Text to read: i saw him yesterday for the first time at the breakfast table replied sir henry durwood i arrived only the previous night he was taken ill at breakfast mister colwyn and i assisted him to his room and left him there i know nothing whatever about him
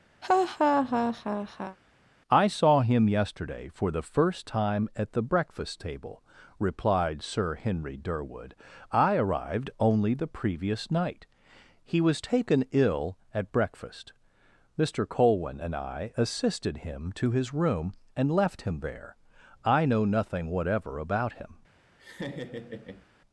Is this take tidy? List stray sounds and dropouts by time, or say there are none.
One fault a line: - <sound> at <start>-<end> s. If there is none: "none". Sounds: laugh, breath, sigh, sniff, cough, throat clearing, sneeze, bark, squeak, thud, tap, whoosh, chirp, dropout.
- laugh at 0.2-1.8 s
- laugh at 22.0-23.1 s